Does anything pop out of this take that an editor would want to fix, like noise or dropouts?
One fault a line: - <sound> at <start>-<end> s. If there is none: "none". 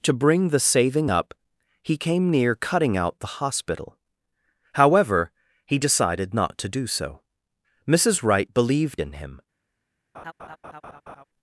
- laugh at 10.1-11.2 s